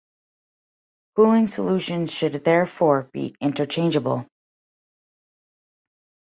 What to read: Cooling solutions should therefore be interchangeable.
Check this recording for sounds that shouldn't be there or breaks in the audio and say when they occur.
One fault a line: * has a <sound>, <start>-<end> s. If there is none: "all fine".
all fine